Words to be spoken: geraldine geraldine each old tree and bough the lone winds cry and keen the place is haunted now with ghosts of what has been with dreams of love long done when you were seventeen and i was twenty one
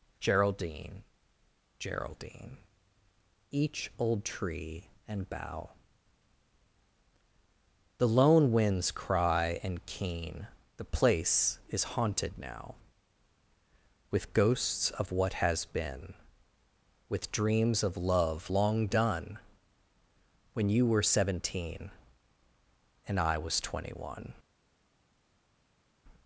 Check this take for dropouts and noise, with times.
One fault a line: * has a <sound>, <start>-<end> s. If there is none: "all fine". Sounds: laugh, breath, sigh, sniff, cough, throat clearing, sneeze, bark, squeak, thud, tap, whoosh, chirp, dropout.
all fine